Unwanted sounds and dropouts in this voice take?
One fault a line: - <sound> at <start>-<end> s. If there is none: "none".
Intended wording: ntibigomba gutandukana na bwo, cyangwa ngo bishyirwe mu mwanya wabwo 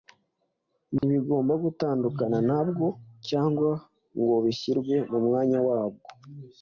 - dropout at 1.0-1.0 s